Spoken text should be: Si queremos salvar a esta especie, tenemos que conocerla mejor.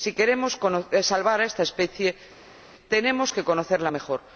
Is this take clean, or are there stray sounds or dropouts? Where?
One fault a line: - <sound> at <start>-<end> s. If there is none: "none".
none